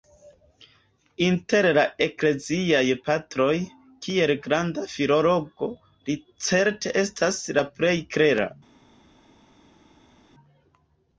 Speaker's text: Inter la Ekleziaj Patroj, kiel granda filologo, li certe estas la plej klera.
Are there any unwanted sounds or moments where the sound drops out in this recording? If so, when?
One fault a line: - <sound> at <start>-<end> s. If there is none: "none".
none